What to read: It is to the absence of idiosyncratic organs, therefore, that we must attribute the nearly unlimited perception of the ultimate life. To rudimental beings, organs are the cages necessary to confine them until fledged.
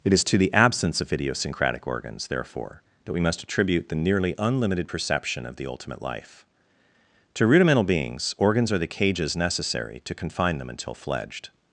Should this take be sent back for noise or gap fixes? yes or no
no